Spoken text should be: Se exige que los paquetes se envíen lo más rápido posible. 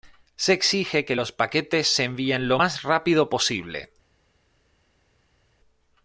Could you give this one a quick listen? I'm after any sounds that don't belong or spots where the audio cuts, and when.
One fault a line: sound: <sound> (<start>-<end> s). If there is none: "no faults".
no faults